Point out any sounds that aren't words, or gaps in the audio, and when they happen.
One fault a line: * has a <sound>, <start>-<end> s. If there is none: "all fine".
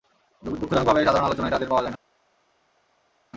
all fine